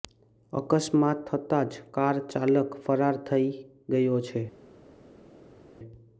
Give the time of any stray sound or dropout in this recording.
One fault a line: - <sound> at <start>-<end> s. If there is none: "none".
none